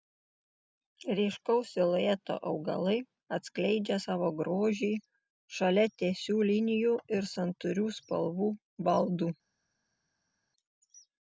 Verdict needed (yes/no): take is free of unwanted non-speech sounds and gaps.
yes